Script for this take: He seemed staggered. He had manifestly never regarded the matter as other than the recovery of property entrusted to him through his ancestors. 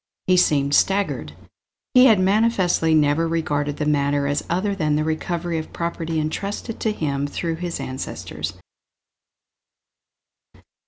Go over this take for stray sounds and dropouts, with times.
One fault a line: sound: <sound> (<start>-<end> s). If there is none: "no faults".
no faults